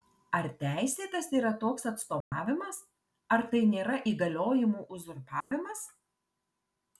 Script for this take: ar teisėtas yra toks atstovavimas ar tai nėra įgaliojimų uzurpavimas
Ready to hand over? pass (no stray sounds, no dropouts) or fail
fail